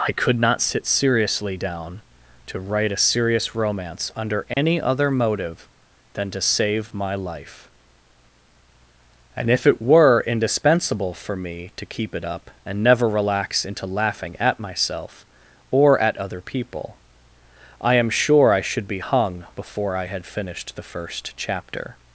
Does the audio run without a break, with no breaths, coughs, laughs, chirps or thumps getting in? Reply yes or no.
no